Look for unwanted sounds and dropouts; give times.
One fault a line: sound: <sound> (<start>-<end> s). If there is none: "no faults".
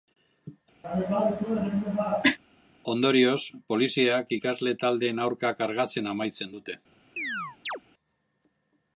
sound: cough (0.8-2.4 s)
sound: chirp (7.2-7.8 s)